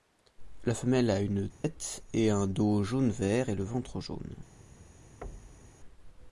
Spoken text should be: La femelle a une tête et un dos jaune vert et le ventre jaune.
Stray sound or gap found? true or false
true